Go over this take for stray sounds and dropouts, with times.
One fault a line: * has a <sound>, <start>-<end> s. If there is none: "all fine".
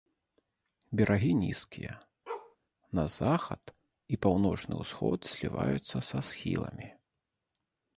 * has a bark, 2.3-2.6 s